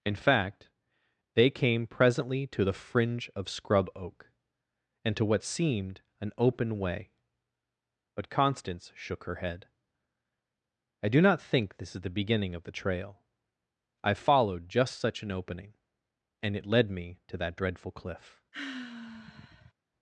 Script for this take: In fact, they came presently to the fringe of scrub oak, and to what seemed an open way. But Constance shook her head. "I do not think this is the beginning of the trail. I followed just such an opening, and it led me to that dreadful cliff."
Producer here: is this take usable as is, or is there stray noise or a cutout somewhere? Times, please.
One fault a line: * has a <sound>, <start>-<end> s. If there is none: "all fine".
* has a sigh, 18.5-19.7 s